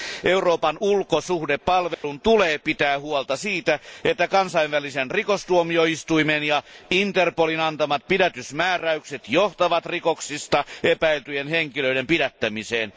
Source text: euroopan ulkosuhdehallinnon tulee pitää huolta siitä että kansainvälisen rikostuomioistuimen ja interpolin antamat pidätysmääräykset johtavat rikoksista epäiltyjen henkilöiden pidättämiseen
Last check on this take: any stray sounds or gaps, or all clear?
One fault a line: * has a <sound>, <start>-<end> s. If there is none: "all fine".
* has a dropout, 1.9-2.0 s